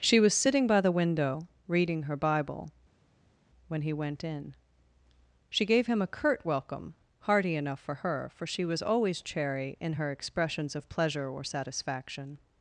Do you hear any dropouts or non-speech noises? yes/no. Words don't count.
no